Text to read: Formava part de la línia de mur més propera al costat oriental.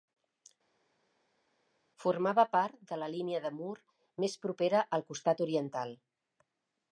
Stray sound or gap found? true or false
false